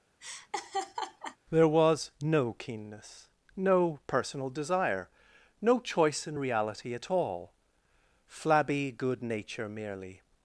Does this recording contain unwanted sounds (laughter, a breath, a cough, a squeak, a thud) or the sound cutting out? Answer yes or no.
yes